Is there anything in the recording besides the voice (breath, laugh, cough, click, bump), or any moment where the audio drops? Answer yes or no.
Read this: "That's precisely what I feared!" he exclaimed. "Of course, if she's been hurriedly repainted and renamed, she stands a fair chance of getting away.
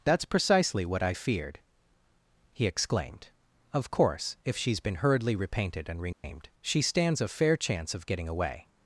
yes